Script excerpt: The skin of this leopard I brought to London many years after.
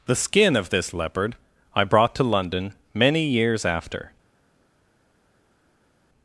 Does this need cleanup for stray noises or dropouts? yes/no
no